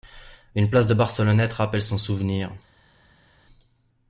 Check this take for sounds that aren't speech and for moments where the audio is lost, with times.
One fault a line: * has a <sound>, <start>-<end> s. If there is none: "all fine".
all fine